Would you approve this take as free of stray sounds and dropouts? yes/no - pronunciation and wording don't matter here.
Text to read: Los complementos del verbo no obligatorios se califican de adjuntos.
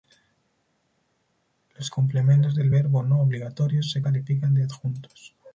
yes